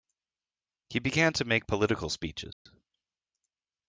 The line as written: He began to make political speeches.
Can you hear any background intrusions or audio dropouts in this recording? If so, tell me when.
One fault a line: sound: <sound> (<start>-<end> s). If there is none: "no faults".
sound: dropout (2.5-2.7 s)